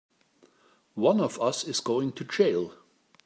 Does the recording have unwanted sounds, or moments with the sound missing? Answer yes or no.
no